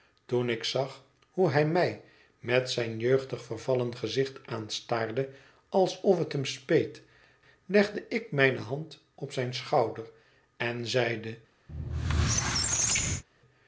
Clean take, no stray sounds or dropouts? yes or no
no